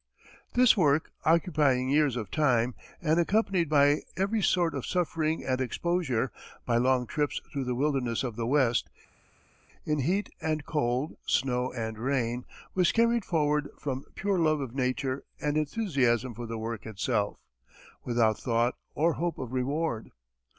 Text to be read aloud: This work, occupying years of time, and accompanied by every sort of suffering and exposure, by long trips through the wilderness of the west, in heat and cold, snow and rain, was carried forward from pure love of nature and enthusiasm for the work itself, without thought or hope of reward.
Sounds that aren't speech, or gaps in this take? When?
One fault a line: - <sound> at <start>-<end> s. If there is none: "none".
none